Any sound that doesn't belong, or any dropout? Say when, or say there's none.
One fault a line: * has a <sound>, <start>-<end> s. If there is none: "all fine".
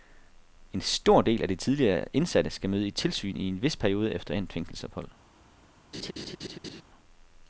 * has a laugh, 5.9-6.8 s